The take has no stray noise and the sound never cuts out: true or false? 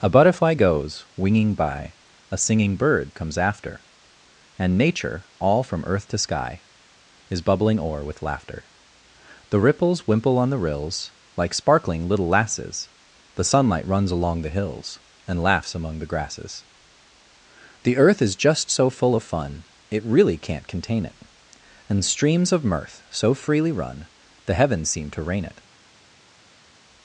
true